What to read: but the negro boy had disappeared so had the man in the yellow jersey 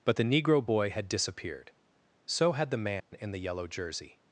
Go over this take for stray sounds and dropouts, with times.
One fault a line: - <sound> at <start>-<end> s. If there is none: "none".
- dropout at 3.0-3.1 s